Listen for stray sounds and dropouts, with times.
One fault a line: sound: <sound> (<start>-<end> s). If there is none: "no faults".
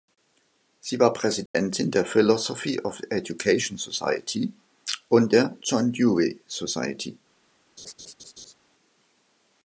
sound: dropout (1.5-1.5 s)
sound: laugh (7.8-8.5 s)